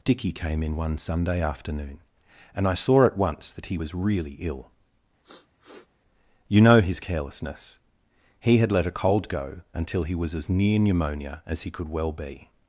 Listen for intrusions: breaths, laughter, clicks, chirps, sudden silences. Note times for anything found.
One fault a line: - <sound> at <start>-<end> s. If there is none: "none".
- sniff at 5.2-5.9 s